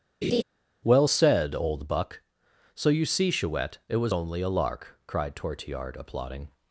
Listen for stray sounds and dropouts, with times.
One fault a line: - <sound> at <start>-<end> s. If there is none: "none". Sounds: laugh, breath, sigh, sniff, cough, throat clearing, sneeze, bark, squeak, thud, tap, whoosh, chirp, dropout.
- laugh at 0.2-0.4 s